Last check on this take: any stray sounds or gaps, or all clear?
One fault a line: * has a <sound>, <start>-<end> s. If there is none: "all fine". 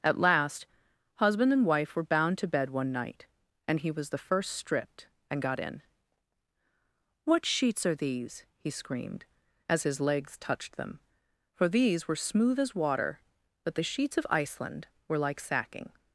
all fine